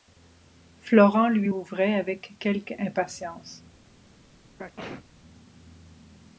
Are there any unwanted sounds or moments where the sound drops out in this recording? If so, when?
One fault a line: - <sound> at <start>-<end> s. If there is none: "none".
- sneeze at 4.6-5.0 s